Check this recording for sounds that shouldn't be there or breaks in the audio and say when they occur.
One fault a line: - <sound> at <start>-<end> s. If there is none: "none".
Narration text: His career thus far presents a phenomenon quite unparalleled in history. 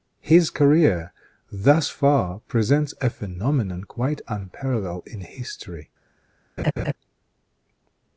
- laugh at 6.6-6.9 s